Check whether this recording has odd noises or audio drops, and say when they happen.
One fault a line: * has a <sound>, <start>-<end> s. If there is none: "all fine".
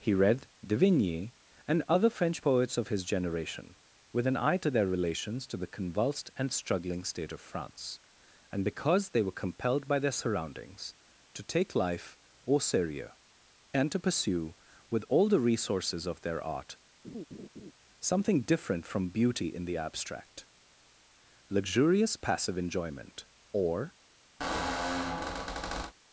* has a laugh, 17.0-17.7 s
* has a squeak, 24.4-25.9 s